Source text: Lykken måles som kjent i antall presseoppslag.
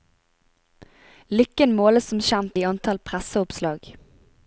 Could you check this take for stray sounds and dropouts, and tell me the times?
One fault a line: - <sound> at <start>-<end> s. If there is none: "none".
none